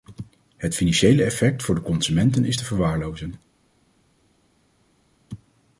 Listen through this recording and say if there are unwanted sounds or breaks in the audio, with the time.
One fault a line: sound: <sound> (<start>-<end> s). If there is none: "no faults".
no faults